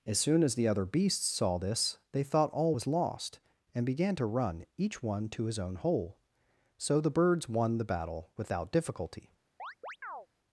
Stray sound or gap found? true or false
true